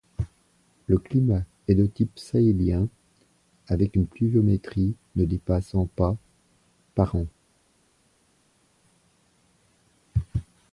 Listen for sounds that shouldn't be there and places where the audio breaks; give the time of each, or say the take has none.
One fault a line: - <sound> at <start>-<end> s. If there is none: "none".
none